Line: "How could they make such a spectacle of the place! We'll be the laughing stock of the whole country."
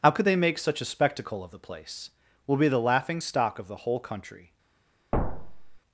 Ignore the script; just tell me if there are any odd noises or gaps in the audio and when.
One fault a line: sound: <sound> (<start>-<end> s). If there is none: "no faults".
sound: thud (5.1-5.8 s)